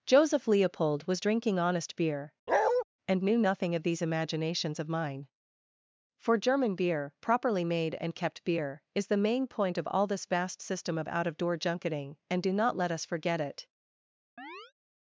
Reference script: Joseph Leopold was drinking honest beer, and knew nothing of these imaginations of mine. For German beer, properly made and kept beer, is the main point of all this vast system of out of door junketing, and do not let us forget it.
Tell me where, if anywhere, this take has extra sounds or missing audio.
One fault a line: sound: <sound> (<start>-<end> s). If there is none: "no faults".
sound: bark (2.5-2.8 s)
sound: chirp (14.4-14.7 s)